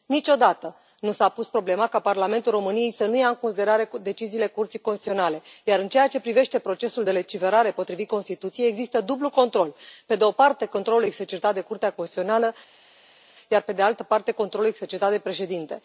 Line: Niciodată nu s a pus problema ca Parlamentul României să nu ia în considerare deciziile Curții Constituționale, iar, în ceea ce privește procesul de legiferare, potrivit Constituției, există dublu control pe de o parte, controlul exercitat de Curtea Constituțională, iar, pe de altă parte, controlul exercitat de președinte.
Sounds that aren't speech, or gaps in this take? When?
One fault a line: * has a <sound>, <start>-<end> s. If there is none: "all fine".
all fine